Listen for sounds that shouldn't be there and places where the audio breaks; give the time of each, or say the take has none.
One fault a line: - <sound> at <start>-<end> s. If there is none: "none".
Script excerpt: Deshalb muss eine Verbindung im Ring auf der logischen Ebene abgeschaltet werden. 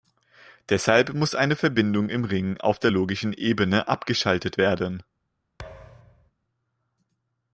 - thud at 5.6-6.3 s